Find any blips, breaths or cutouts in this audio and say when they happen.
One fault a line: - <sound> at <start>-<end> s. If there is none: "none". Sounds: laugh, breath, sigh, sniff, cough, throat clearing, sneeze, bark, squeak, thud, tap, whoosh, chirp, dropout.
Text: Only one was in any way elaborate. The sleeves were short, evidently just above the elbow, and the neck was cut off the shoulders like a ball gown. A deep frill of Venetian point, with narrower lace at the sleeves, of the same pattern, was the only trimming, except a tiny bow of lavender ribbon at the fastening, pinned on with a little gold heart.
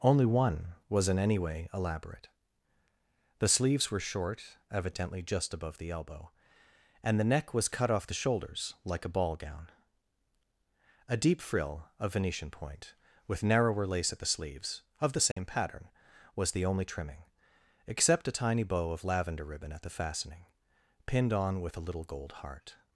- dropout at 15.3-15.4 s